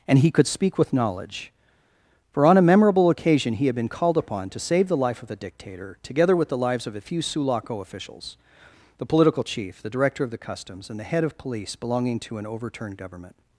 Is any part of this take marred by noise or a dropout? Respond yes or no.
no